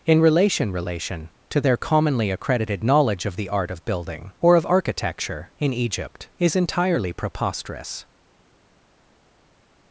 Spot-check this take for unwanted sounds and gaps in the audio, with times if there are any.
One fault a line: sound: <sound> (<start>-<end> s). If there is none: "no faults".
no faults